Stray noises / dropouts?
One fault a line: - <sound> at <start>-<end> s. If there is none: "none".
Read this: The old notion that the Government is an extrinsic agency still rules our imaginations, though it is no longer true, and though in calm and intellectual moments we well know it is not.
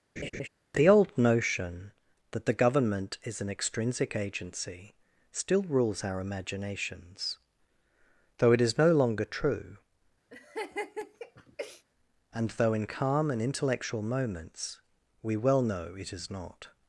- laugh at 0.2-0.5 s
- laugh at 10.3-11.8 s